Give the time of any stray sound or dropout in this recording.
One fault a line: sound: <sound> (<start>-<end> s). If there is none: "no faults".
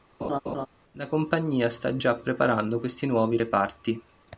sound: laugh (0.2-0.7 s)